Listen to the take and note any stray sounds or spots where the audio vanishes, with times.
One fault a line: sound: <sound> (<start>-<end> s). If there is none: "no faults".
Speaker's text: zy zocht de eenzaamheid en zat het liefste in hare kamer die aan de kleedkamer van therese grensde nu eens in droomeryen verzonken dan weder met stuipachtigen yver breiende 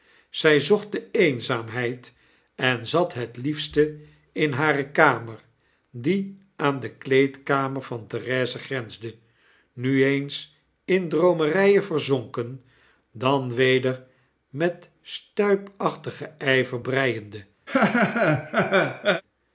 sound: laugh (17.7-19.2 s)